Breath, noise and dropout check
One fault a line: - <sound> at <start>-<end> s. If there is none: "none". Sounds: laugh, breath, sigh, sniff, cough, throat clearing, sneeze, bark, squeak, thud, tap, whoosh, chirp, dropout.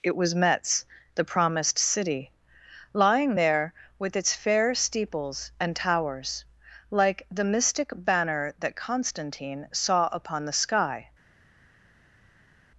none